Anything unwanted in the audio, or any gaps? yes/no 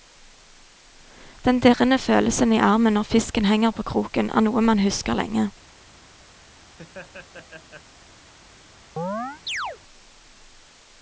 yes